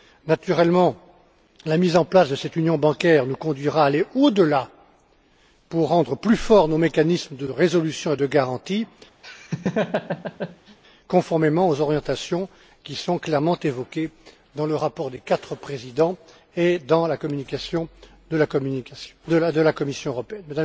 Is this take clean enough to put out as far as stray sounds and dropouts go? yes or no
no